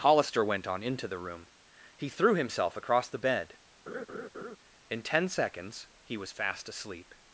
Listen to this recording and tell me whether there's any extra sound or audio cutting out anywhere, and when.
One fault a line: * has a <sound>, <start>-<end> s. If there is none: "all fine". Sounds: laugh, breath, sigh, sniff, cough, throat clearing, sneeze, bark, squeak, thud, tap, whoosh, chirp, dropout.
* has a laugh, 3.9-4.6 s